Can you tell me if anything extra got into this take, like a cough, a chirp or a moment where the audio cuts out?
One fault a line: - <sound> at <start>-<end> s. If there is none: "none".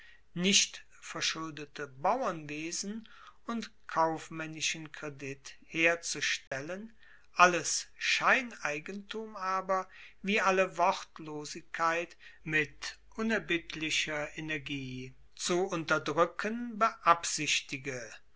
- dropout at 6.5-6.5 s